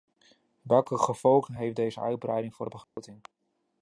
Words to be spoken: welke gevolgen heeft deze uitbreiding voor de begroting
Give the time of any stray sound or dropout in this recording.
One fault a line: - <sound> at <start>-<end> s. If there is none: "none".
- dropout at 2.8-3.0 s